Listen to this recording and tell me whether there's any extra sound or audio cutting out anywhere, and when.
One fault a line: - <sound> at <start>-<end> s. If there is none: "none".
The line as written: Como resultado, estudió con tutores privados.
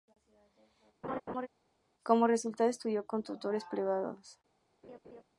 - laugh at 1.0-1.5 s
- laugh at 4.8-5.2 s